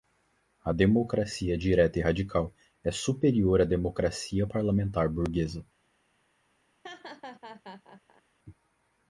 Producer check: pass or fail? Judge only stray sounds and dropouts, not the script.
fail